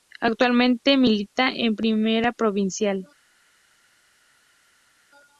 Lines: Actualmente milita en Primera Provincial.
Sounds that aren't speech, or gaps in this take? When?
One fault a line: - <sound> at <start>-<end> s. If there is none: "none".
none